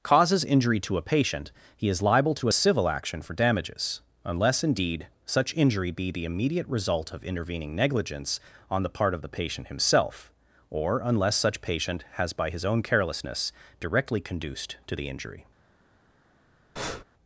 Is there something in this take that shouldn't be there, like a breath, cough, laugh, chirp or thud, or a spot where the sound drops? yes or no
yes